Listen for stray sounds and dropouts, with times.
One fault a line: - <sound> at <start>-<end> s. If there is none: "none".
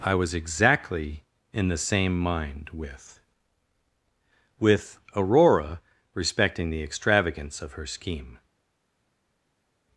none